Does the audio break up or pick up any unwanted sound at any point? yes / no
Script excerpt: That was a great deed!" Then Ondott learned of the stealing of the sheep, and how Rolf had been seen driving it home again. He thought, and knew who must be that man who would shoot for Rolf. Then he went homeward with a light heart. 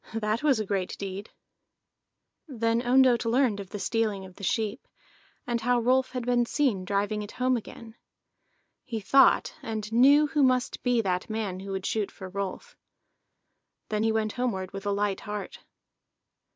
no